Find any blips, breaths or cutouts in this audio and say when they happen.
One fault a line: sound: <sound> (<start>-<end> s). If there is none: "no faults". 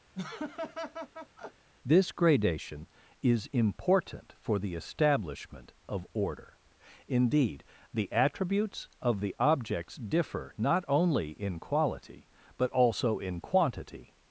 sound: laugh (0.1-1.7 s)